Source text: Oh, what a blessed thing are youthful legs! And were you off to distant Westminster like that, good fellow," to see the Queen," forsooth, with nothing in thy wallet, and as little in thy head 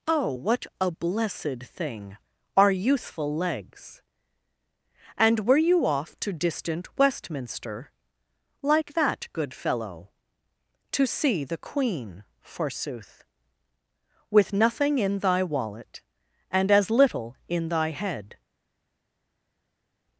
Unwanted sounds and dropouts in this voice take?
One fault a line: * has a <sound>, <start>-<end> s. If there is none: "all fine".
all fine